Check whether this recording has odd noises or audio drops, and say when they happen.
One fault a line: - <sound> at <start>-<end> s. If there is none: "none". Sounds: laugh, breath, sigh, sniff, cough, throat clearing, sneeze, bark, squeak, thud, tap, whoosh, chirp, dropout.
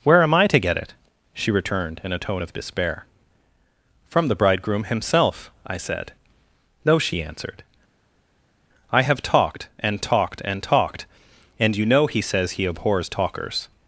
none